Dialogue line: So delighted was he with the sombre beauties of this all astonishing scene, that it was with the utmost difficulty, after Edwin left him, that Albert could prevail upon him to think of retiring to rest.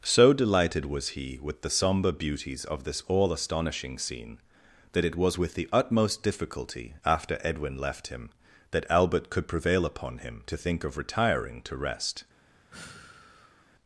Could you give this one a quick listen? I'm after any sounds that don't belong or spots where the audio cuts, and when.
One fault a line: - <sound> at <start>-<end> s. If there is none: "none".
- sigh at 12.7-13.7 s